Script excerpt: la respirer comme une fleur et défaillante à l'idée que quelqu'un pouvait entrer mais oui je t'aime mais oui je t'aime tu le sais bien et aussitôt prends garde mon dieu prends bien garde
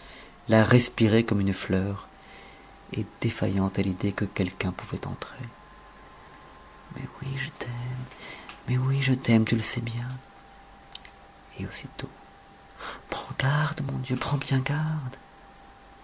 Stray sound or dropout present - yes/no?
no